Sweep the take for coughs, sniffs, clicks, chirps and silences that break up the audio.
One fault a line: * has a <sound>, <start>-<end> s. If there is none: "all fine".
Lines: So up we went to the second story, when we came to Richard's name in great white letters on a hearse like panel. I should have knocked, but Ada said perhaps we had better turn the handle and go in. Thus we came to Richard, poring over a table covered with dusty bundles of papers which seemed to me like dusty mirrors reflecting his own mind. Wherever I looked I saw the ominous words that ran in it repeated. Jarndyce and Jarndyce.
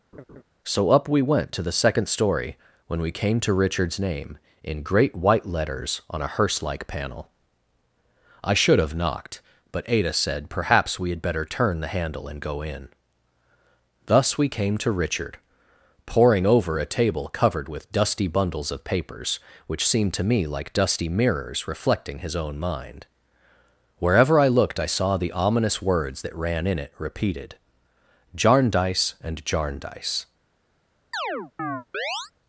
* has a laugh, 0.1-0.4 s
* has a chirp, 31.1-32.3 s